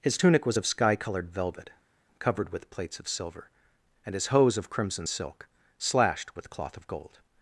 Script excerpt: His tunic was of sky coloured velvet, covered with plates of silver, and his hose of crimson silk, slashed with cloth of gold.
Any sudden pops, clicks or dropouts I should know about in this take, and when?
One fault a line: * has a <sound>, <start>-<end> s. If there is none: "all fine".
all fine